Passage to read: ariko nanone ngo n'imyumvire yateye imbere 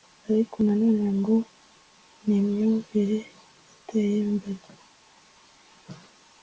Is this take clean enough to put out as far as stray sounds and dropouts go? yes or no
yes